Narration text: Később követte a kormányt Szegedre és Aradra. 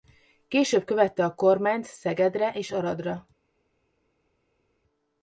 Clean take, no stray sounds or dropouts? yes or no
yes